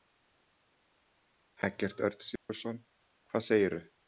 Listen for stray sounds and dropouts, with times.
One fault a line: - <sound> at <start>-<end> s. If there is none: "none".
- dropout at 2.4-2.5 s